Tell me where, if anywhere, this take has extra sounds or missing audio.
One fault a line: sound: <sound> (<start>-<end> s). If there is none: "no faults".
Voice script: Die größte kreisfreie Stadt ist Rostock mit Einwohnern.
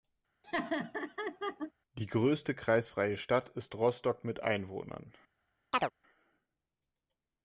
sound: laugh (0.4-1.7 s)
sound: chirp (5.7-5.9 s)